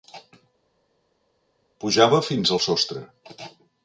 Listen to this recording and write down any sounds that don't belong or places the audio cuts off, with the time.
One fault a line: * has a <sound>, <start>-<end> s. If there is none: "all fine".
all fine